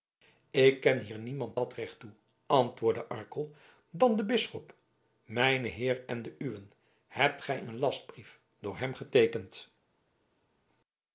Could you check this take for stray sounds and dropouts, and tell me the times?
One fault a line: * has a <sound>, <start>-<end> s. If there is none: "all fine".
all fine